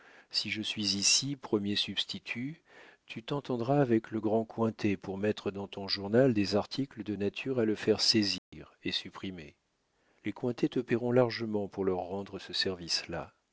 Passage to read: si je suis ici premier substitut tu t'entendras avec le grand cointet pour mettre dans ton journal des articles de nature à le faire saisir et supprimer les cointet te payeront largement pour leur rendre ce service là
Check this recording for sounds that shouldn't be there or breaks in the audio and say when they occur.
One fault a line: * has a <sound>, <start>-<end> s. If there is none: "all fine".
* has a dropout, 8.4-8.5 s